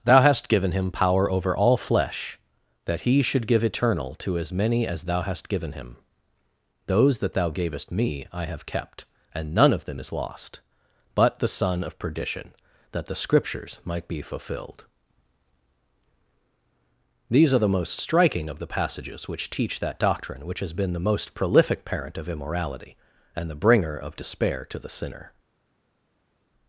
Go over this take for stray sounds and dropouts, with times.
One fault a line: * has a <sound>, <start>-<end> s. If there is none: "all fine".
all fine